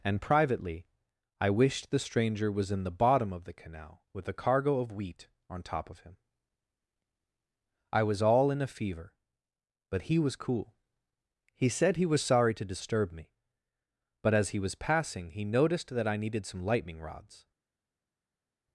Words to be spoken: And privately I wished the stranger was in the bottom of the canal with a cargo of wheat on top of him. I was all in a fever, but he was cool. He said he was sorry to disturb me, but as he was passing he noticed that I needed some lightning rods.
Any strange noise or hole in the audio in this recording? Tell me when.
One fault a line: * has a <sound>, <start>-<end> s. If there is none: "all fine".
all fine